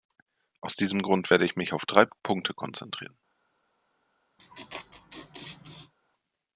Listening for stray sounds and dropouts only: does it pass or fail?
fail